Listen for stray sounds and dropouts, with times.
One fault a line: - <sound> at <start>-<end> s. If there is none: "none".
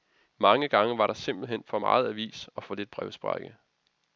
none